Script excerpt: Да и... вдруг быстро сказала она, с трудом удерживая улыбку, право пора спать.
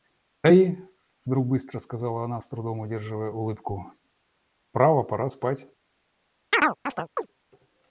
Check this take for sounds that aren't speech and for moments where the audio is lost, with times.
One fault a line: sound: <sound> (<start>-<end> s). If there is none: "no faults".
sound: chirp (6.5-7.3 s)